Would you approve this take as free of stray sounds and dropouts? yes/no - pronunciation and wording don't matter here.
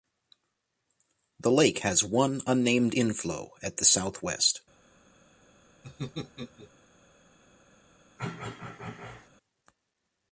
no